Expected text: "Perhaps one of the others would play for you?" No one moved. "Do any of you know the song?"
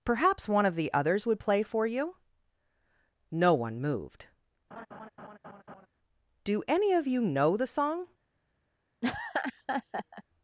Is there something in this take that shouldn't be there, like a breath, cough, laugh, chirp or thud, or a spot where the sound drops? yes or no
yes